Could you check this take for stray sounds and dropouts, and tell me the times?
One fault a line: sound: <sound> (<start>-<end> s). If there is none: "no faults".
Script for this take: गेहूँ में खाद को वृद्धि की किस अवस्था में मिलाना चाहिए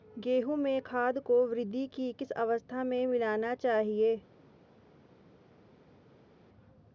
no faults